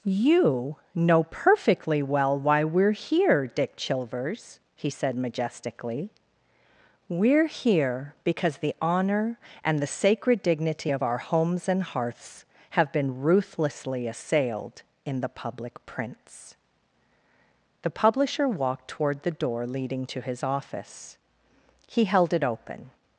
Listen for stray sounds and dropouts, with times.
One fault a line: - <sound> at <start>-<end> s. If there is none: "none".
none